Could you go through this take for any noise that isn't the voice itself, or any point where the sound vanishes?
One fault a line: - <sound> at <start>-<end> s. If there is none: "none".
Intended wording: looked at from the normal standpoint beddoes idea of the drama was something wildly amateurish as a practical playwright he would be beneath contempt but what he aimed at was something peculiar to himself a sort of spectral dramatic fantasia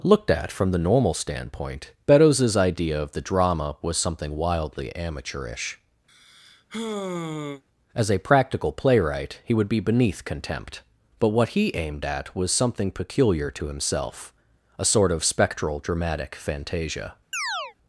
- sigh at 6.1-7.6 s
- chirp at 17.3-17.7 s